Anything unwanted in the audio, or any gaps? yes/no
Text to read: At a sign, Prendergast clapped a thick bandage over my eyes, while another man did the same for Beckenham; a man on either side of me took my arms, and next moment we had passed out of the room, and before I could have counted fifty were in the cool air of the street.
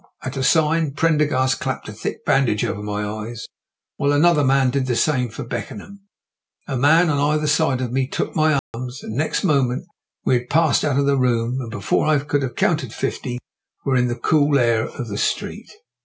yes